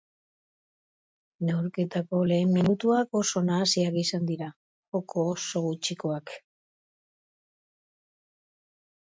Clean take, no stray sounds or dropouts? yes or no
yes